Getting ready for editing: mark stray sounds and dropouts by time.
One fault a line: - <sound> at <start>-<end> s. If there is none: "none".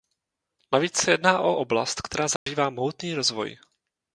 - dropout at 2.4-2.5 s